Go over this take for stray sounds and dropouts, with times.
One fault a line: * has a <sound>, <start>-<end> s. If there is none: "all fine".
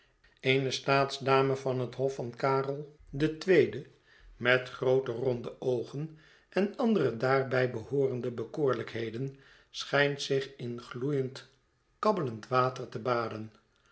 all fine